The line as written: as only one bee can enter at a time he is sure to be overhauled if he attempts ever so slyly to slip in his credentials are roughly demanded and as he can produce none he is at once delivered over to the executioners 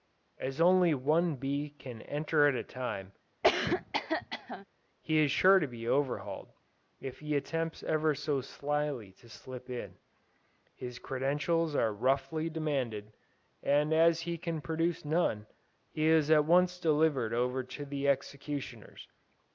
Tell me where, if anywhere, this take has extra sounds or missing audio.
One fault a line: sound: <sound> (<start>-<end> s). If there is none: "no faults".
sound: cough (3.4-4.7 s)